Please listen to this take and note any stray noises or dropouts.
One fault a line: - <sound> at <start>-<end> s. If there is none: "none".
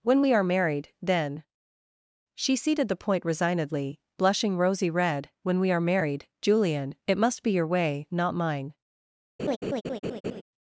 - laugh at 9.4-10.4 s